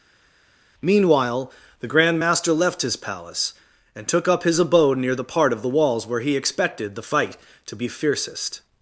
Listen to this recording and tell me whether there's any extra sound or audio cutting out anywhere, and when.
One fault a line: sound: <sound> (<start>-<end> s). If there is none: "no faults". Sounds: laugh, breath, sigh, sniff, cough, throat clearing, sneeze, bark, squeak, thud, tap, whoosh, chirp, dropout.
no faults